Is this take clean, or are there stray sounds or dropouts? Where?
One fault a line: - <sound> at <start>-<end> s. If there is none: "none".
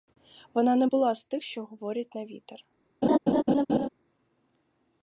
- laugh at 3.0-3.9 s